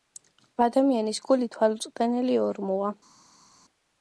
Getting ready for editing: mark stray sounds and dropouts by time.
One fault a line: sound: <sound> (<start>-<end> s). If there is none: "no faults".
no faults